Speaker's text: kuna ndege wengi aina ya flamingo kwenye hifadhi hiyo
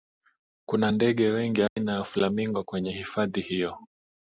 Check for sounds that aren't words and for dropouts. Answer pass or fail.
fail